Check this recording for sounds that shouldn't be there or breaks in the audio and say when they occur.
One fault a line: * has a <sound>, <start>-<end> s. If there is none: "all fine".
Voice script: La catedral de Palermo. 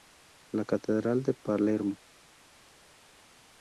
all fine